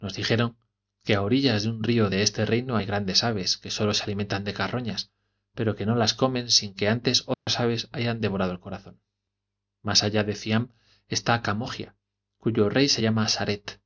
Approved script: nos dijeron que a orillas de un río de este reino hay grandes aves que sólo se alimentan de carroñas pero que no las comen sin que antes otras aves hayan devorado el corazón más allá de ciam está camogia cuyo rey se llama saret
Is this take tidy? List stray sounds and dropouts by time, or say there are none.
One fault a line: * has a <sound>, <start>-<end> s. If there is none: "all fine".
* has a dropout, 7.3-7.5 s